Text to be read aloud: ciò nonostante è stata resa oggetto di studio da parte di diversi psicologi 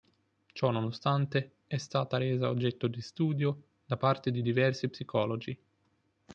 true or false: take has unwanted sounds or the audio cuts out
false